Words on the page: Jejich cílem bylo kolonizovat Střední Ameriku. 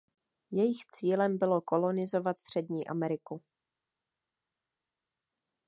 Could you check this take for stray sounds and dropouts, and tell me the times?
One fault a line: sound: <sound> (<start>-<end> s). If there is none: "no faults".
no faults